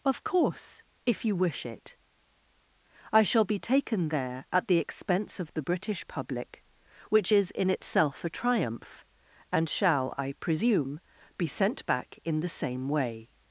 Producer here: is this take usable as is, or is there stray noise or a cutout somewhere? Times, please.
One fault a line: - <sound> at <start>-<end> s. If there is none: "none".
none